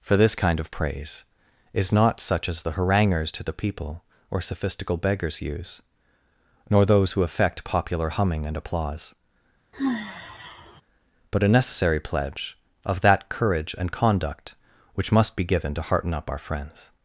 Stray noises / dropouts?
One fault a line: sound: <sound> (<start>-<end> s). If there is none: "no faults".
sound: sigh (9.7-10.8 s)